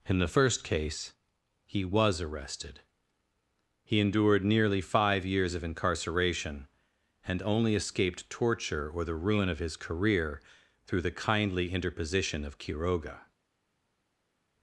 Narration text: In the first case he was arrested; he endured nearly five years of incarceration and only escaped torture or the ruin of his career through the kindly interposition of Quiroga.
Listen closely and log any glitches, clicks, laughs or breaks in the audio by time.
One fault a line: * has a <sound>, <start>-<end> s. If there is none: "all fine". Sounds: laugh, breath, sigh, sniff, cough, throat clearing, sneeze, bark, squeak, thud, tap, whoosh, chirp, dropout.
all fine